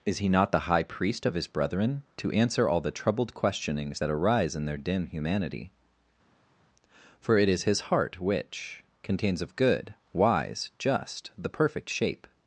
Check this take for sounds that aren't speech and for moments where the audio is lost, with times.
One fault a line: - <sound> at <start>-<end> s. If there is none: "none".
none